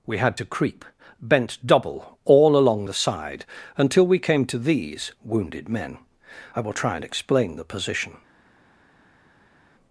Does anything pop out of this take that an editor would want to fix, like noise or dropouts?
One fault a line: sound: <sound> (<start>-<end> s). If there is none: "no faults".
no faults